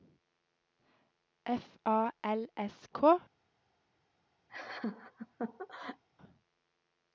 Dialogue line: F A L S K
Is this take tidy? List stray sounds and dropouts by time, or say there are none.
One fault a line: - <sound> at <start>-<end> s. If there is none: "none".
- laugh at 4.5-6.0 s